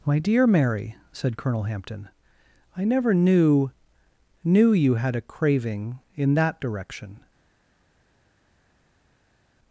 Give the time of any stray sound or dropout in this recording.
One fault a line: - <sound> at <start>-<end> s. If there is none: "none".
none